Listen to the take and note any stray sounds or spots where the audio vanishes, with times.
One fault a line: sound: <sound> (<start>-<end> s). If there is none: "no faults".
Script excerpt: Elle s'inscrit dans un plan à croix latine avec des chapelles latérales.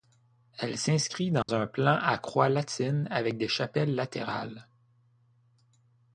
sound: dropout (1.4-1.5 s)